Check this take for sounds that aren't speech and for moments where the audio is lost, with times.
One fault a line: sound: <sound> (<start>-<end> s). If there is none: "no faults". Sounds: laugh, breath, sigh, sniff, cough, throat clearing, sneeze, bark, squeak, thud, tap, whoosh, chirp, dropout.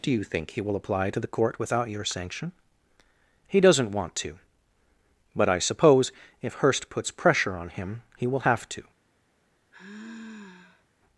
sound: sigh (9.7-10.8 s)